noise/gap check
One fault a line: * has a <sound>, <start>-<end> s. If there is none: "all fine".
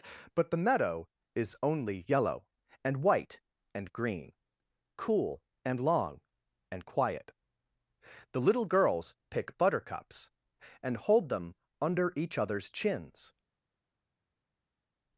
all fine